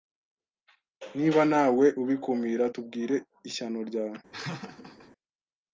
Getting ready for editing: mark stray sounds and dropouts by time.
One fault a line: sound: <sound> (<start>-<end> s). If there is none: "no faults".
sound: laugh (4.3-5.1 s)